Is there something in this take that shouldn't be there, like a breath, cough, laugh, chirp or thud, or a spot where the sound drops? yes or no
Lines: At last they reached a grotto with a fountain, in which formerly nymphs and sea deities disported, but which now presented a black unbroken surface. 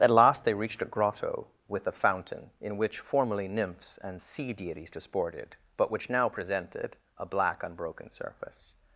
no